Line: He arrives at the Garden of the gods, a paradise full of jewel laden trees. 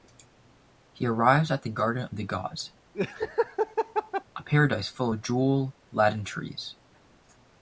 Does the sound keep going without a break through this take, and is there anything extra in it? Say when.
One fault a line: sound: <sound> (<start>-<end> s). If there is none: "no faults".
sound: laugh (2.9-4.2 s)